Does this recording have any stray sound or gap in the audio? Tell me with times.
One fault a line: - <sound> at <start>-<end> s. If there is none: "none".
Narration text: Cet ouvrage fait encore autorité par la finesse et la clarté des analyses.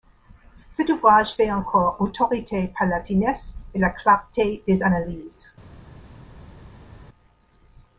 none